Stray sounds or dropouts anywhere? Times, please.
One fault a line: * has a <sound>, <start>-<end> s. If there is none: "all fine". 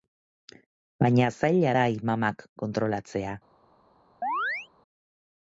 * has a chirp, 4.2-4.7 s